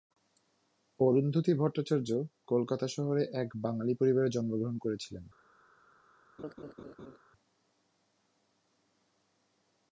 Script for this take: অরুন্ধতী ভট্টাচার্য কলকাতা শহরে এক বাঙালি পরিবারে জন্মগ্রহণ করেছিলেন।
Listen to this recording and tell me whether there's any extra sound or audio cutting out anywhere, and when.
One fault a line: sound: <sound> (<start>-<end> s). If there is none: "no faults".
sound: laugh (6.4-7.2 s)